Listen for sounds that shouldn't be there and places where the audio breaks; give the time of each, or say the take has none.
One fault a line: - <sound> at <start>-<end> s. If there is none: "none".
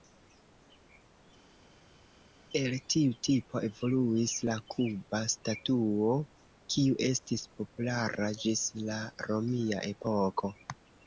none